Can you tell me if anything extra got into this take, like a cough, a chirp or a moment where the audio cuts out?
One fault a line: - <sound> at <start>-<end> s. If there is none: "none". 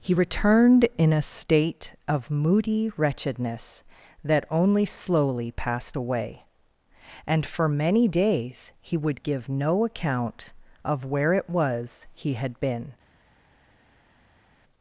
none